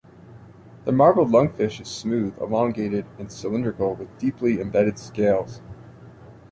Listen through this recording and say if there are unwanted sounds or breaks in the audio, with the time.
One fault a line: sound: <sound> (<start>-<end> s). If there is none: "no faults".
no faults